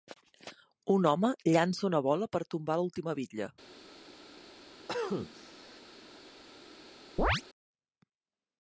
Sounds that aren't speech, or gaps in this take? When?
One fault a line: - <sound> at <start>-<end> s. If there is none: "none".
- cough at 4.9-5.8 s
- chirp at 7.2-7.4 s